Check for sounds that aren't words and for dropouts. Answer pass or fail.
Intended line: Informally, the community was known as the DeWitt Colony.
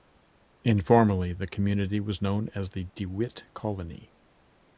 pass